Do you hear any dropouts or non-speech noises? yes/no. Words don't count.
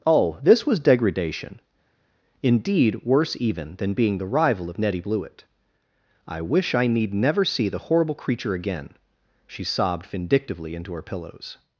no